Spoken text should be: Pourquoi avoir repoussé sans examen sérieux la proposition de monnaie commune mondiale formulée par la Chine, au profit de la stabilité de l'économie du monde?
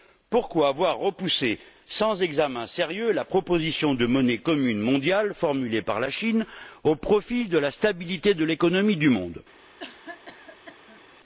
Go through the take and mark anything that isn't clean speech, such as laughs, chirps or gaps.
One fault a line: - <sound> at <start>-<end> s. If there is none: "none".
- cough at 9.8-11.0 s